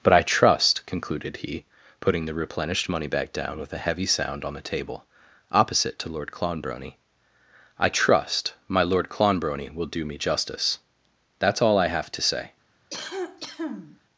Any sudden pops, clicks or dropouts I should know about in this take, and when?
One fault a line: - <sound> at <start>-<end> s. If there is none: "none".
- cough at 12.9-14.0 s